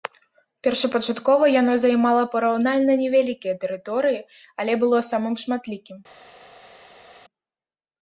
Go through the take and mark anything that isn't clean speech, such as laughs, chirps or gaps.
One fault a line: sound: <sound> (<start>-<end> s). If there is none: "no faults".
no faults